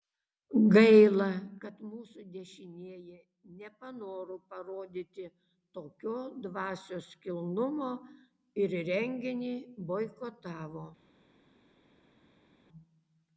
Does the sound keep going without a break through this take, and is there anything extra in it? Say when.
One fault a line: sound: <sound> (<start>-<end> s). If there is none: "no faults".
no faults